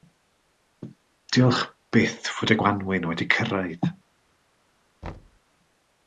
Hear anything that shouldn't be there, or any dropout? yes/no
yes